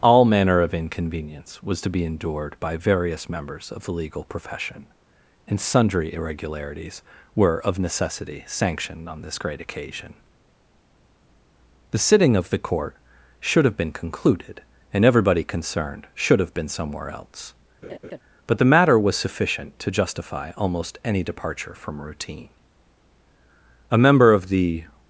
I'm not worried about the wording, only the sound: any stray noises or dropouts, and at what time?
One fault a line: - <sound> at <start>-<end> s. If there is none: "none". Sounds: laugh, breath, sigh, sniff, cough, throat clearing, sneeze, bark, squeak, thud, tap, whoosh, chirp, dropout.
- laugh at 17.8-18.2 s